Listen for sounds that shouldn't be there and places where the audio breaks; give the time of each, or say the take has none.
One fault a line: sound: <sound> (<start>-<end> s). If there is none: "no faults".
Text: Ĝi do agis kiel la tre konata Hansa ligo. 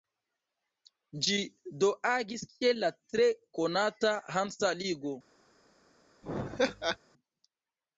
sound: laugh (6.2-7.0 s)